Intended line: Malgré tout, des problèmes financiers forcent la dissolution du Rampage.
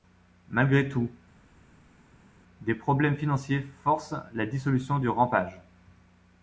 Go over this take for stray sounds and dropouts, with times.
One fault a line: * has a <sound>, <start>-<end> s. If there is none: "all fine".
all fine